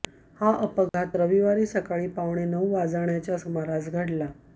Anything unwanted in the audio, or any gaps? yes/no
yes